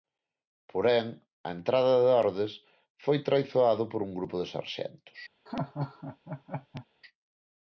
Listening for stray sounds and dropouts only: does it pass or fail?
fail